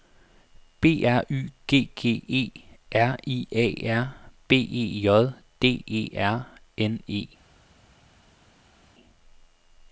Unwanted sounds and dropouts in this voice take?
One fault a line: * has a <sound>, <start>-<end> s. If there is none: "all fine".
all fine